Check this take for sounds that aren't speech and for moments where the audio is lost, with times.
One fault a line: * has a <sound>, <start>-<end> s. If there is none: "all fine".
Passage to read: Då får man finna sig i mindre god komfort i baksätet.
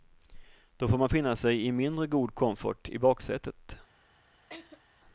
* has a laugh, 4.5-4.8 s